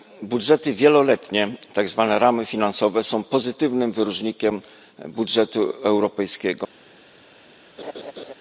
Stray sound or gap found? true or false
true